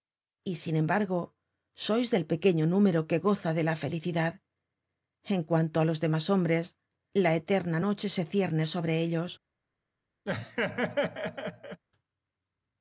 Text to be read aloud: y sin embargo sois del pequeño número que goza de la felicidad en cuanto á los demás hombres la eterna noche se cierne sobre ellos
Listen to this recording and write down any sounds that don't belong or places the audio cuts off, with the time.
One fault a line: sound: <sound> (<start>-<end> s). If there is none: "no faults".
sound: laugh (10.3-11.8 s)